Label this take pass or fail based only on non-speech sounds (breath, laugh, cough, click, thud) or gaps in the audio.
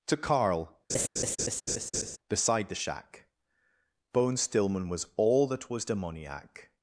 fail